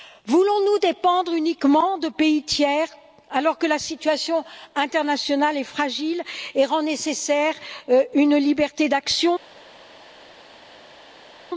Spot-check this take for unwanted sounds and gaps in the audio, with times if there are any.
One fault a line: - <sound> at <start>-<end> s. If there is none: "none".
none